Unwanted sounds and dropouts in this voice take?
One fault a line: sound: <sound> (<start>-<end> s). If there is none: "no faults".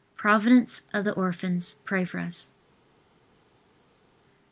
no faults